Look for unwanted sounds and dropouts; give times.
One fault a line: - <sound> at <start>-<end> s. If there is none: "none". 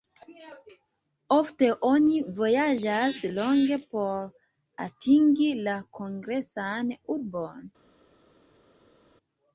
none